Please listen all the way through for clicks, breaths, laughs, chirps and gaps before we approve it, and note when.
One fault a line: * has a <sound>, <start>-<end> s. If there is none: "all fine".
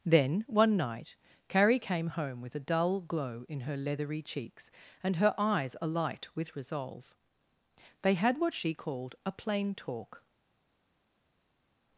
all fine